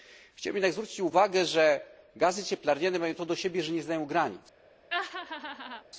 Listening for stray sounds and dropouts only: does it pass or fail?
fail